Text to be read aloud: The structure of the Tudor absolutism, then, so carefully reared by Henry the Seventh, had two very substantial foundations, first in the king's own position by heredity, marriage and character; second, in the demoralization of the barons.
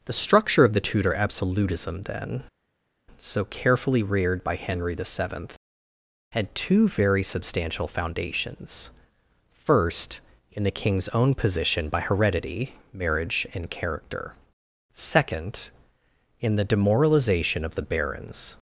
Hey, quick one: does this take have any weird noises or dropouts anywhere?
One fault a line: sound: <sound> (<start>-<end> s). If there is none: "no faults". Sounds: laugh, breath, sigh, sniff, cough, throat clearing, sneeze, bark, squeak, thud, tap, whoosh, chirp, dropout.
no faults